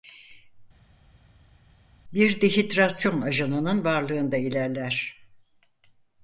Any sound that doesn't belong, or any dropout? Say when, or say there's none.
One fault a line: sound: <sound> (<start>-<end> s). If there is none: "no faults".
no faults